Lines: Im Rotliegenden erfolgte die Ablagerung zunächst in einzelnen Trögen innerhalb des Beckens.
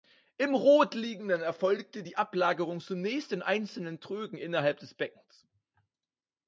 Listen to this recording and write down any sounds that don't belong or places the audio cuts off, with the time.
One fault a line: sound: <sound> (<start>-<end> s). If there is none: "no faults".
no faults